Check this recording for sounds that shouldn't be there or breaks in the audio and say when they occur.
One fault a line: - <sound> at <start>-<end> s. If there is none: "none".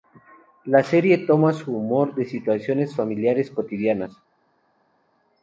none